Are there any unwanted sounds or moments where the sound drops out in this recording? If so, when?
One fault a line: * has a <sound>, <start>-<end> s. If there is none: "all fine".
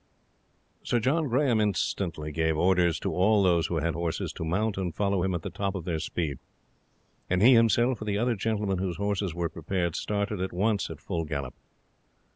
all fine